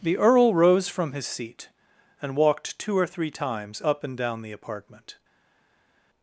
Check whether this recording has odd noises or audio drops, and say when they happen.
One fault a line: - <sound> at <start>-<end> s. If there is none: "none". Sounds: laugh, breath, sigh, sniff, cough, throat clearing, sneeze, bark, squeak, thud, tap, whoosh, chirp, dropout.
none